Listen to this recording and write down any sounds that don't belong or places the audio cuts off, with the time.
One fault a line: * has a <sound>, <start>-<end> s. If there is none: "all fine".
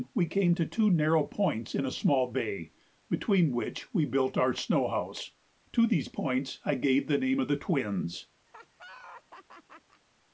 * has a laugh, 8.5-10.0 s